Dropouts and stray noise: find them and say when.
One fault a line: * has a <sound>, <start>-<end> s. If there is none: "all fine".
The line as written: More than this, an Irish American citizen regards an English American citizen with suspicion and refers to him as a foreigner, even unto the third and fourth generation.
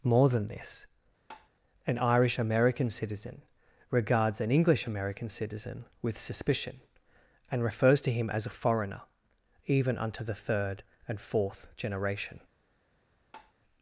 * has a tap, 1.3-1.5 s
* has a tap, 13.3-13.5 s